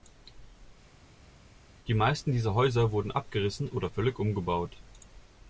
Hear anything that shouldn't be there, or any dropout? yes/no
no